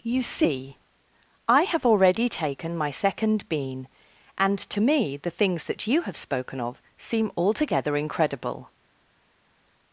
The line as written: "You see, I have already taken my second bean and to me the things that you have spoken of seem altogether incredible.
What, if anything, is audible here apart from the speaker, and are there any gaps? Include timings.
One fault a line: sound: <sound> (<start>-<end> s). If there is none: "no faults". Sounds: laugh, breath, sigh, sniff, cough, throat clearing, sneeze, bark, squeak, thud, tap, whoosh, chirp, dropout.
no faults